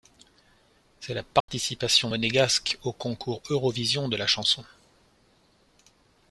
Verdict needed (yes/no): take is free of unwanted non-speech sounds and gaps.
no